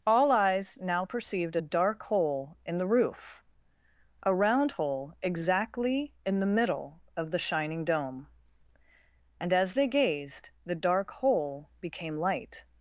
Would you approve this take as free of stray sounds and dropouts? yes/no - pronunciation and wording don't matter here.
yes